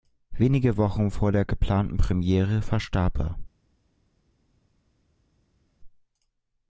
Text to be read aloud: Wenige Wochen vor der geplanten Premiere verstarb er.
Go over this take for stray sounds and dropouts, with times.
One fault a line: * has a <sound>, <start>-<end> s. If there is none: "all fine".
all fine